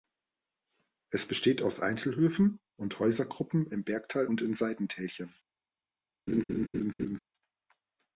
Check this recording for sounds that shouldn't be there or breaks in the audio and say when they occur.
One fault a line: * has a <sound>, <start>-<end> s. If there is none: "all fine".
* has a laugh, 6.3-7.2 s